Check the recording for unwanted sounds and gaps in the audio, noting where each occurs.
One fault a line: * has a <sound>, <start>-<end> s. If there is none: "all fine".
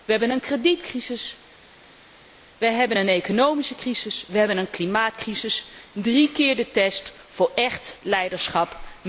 all fine